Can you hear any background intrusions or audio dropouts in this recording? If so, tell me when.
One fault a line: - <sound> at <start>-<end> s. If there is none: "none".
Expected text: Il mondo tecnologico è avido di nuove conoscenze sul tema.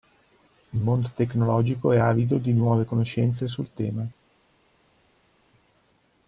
none